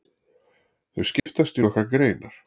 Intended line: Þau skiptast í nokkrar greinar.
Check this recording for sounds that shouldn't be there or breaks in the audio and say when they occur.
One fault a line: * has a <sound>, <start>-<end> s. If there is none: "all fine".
* has a dropout, 1.2-1.3 s